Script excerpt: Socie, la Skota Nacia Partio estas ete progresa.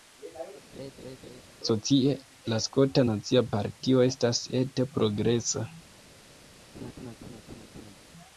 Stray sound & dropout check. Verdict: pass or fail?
fail